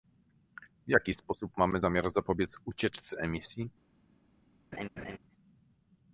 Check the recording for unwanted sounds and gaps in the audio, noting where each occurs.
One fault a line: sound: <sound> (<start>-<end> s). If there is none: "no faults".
sound: laugh (4.7-5.2 s)